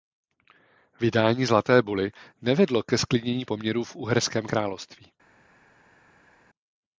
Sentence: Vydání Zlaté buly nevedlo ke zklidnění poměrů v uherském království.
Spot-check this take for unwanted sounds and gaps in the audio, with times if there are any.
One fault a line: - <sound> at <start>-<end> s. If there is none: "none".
none